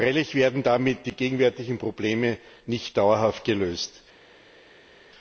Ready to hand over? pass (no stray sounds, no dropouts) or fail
pass